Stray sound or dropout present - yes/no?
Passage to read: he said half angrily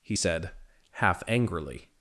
no